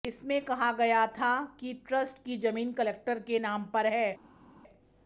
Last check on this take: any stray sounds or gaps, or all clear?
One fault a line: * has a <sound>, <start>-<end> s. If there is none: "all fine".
all fine